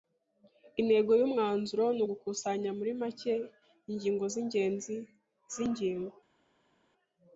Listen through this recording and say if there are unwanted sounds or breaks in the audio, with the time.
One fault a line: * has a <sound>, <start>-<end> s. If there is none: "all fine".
all fine